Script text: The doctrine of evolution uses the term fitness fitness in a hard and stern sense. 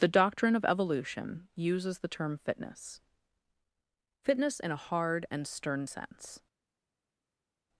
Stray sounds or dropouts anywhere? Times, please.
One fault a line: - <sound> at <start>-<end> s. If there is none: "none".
none